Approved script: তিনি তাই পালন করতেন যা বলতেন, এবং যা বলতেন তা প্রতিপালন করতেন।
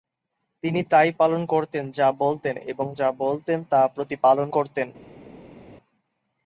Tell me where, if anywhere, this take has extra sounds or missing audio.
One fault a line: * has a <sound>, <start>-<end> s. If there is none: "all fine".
all fine